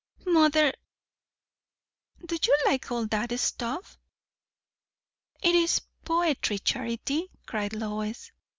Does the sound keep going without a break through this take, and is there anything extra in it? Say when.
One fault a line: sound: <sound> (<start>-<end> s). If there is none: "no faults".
no faults